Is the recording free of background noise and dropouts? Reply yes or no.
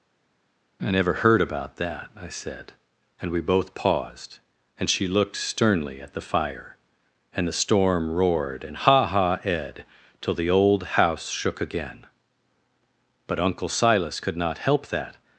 yes